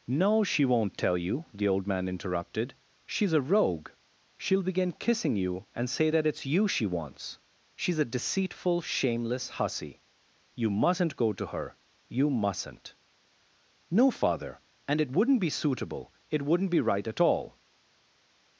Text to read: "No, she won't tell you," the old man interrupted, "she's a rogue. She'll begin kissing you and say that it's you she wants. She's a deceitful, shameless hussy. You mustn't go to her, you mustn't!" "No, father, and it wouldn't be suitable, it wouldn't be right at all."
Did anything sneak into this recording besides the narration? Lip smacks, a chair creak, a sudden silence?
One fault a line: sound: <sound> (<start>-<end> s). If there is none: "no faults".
no faults